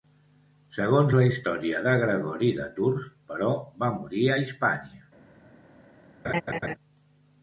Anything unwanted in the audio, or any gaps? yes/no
yes